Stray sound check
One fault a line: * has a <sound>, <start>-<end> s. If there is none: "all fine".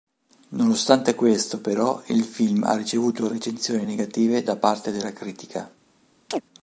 * has a chirp, 6.3-6.4 s